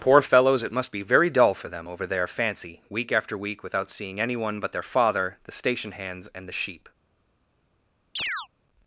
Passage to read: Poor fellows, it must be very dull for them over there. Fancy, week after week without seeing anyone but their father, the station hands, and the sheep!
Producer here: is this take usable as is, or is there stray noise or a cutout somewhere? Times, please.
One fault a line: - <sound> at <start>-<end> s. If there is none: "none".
- chirp at 8.2-8.5 s